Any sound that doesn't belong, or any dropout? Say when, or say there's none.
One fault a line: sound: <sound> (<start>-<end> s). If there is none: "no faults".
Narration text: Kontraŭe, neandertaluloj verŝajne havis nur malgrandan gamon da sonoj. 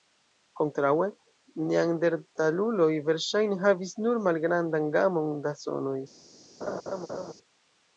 sound: laugh (6.6-7.3 s)